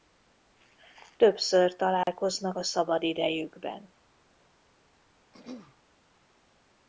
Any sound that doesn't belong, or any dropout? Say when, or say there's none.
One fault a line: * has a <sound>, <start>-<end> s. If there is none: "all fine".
* has a dropout, 2.0-2.1 s
* has a throat clearing, 5.3-5.8 s